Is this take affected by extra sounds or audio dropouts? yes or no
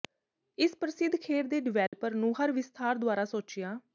yes